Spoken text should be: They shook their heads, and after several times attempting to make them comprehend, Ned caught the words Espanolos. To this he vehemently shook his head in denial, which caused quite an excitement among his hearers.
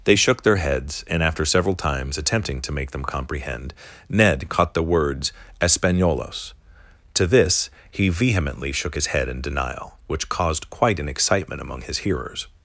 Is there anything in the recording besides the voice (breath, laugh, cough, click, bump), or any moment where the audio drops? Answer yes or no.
no